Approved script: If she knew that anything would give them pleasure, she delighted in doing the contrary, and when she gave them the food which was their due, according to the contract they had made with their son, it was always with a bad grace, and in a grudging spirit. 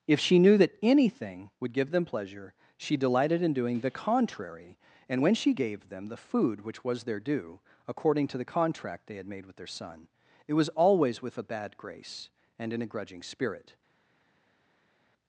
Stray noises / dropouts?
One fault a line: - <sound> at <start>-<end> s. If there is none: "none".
none